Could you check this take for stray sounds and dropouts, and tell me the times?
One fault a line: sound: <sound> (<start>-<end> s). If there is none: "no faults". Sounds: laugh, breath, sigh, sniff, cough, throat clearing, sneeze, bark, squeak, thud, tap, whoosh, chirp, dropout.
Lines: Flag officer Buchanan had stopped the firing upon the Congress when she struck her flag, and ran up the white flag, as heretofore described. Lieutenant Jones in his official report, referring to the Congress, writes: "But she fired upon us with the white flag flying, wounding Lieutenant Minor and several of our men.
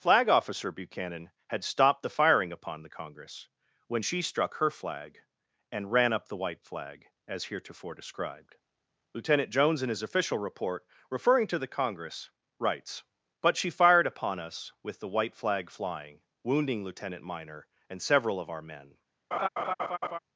sound: laugh (19.3-20.2 s)